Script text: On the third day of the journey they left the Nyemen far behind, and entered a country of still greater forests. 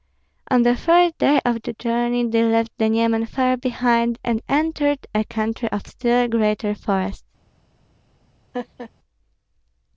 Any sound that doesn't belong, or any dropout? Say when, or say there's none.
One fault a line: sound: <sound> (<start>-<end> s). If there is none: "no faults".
sound: laugh (8.5-8.9 s)